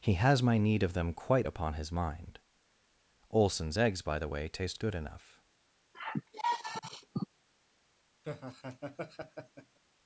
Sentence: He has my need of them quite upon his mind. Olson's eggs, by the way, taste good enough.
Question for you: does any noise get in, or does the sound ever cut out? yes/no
yes